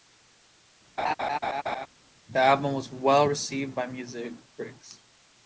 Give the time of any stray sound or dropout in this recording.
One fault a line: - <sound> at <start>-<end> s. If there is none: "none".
- laugh at 1.0-1.9 s